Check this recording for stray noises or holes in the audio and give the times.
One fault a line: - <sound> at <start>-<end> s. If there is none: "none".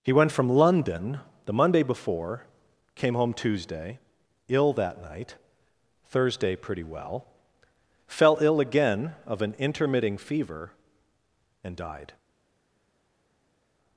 none